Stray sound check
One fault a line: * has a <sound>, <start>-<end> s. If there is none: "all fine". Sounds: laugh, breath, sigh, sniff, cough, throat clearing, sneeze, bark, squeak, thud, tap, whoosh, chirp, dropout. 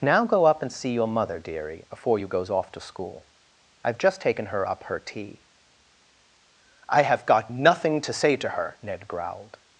all fine